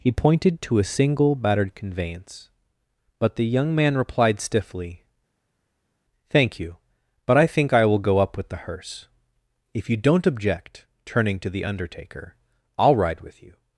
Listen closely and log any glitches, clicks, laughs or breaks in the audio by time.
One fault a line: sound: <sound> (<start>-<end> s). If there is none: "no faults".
no faults